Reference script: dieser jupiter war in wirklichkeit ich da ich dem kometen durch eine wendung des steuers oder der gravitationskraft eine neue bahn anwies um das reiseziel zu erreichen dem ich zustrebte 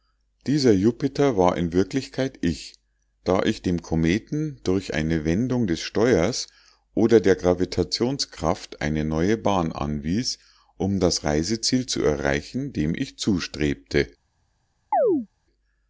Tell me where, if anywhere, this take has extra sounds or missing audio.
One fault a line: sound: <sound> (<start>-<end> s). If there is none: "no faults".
sound: chirp (14.9-15.3 s)